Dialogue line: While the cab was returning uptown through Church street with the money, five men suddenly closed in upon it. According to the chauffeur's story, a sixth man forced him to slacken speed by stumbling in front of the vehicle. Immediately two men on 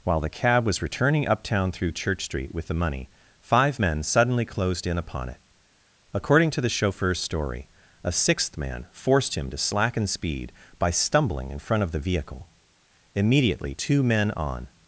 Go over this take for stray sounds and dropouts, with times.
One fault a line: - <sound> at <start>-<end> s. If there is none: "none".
none